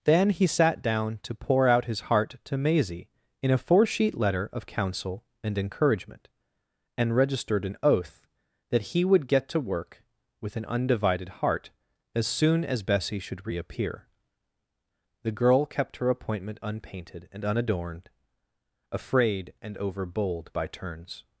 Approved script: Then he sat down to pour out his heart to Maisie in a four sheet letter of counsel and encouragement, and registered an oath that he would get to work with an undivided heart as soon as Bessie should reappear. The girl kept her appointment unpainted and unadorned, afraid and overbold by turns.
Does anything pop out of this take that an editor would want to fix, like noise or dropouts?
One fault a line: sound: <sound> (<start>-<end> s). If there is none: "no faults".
no faults